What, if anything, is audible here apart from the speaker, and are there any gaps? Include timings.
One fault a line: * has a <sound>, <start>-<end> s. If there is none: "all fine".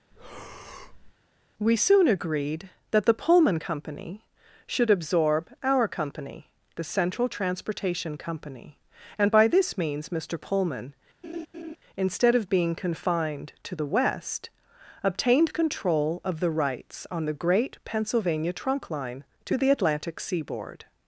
* has a breath, 0.1-1.1 s
* has a laugh, 11.2-11.8 s